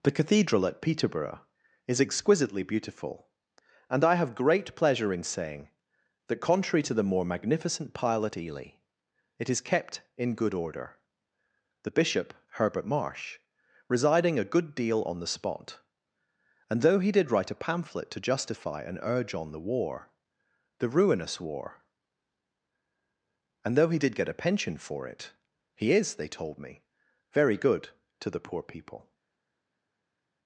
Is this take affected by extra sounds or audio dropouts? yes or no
no